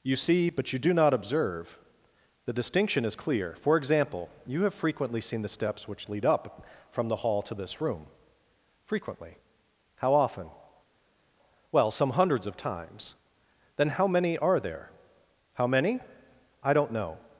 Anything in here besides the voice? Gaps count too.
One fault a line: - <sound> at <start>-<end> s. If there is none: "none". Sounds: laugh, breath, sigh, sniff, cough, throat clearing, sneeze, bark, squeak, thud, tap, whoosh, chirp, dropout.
none